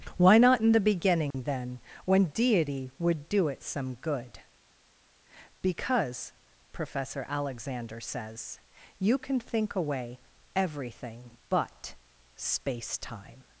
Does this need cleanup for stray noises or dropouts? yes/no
yes